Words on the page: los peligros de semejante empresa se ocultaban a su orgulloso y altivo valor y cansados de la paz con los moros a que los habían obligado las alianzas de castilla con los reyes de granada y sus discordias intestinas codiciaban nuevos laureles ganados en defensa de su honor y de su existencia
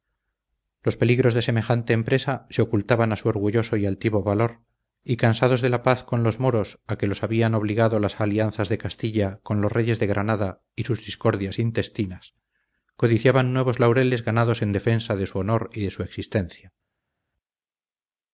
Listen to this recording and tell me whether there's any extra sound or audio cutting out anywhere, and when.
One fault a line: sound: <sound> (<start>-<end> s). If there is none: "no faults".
no faults